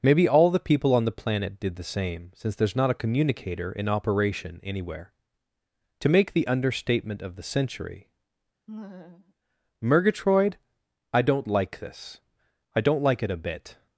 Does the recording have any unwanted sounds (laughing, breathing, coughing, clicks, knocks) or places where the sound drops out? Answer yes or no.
yes